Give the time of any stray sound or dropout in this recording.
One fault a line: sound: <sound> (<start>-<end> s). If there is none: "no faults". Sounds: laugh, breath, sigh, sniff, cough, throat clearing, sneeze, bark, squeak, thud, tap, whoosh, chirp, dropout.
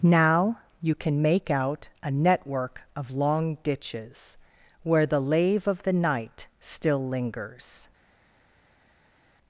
no faults